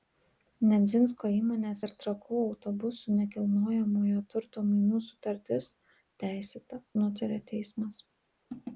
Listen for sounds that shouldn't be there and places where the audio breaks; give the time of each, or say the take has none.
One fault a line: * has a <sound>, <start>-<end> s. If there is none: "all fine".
all fine